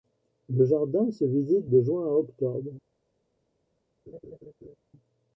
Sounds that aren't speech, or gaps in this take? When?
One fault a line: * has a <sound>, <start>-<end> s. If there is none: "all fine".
* has a laugh, 4.1-4.8 s